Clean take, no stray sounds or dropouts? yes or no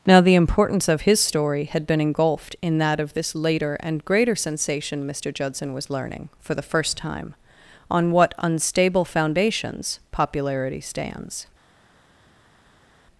yes